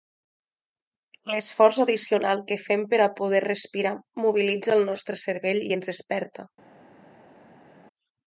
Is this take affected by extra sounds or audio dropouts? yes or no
no